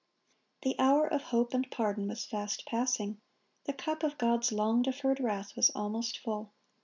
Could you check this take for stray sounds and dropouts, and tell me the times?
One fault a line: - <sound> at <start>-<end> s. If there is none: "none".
none